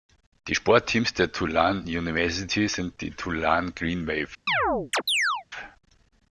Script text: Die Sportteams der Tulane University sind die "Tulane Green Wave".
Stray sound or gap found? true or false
true